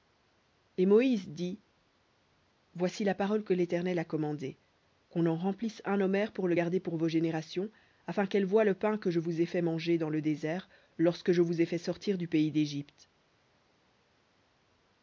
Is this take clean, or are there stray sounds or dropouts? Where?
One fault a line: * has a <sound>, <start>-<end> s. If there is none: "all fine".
all fine